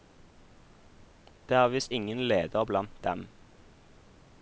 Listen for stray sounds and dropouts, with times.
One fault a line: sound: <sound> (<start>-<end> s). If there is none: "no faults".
no faults